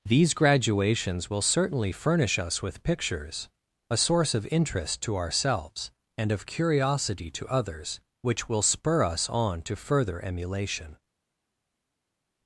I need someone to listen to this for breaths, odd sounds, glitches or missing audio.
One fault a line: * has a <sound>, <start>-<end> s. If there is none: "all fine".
all fine